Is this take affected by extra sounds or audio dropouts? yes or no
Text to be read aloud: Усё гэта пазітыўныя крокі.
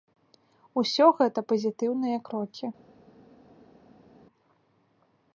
no